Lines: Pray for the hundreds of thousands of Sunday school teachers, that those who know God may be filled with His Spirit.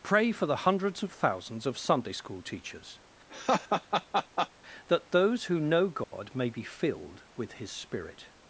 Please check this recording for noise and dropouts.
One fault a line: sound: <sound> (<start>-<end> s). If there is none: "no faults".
sound: laugh (3.3-4.5 s)
sound: dropout (6.0-6.1 s)